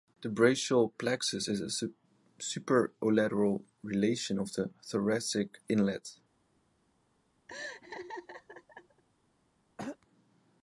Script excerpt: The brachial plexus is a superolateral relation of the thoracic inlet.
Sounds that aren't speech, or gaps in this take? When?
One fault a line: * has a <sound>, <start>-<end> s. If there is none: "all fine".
* has a laugh, 7.5-9.0 s
* has a throat clearing, 9.8-10.0 s